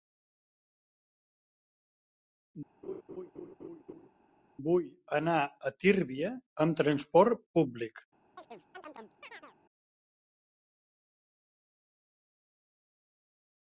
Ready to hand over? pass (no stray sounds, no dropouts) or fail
fail